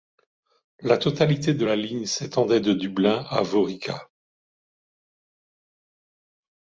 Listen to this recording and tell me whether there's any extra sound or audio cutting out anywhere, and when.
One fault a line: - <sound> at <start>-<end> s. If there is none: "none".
none